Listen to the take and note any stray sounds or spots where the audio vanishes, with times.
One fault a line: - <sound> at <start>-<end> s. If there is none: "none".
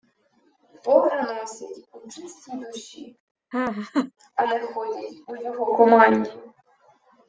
- laugh at 3.5-4.1 s